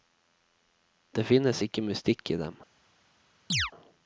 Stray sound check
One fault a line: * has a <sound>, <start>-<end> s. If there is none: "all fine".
* has a chirp, 3.5-3.7 s